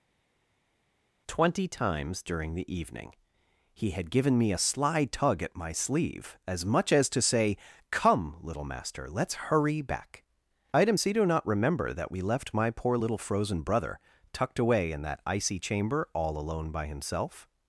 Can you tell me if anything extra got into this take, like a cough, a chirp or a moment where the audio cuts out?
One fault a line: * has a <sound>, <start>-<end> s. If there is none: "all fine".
all fine